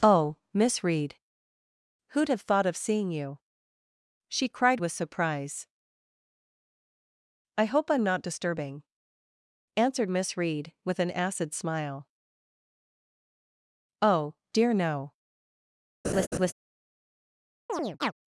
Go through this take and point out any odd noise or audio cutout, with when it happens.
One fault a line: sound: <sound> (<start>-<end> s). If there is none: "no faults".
sound: laugh (16.0-16.5 s)
sound: chirp (17.7-18.1 s)